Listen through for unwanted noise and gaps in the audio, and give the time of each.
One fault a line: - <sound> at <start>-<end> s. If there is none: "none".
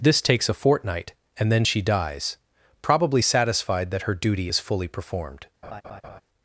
- laugh at 5.6-6.2 s